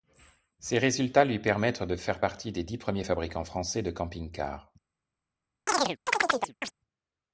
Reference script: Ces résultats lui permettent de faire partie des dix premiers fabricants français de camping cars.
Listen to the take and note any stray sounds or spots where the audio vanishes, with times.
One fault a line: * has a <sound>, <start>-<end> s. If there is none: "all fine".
* has a chirp, 5.7-6.7 s